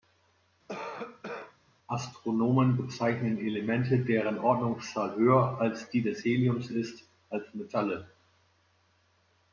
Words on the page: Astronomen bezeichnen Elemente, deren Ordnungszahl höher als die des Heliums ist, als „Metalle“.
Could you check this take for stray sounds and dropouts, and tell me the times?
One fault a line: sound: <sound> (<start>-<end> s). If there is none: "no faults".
sound: cough (0.7-1.6 s)